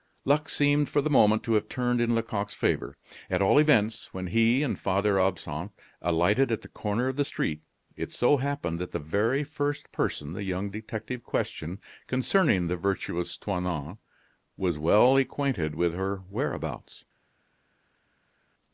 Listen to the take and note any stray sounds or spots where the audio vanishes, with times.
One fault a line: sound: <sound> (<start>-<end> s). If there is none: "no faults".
no faults